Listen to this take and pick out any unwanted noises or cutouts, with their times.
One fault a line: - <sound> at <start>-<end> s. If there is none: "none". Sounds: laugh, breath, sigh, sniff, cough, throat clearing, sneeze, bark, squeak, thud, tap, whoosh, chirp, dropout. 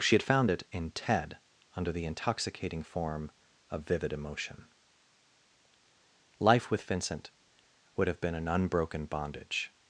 none